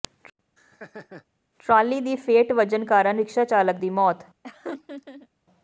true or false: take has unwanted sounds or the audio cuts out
true